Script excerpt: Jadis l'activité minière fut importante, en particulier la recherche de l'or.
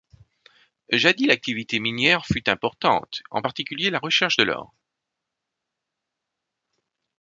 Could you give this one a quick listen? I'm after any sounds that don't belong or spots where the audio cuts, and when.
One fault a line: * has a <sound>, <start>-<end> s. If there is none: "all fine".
all fine